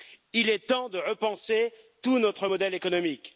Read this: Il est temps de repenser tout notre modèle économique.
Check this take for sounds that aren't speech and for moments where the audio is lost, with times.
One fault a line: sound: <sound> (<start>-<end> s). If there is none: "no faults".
no faults